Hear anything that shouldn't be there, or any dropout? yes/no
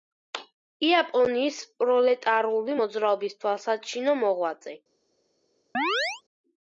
yes